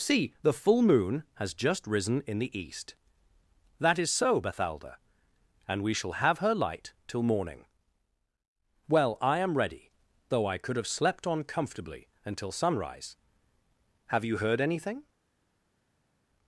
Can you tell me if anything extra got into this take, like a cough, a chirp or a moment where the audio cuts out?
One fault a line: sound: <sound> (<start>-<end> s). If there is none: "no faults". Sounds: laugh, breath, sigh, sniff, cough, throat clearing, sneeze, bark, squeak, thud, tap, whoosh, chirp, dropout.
no faults